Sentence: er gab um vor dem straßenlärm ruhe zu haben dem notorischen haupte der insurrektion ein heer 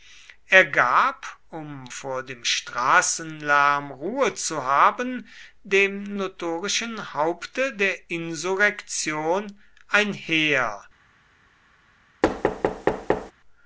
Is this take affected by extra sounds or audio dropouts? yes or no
yes